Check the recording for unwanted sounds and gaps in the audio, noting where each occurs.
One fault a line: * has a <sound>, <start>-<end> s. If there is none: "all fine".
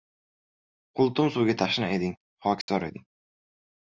* has a dropout, 2.6-2.7 s